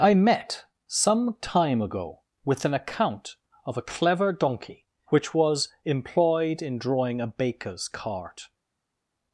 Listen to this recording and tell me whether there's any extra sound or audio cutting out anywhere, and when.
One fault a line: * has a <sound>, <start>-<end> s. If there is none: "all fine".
all fine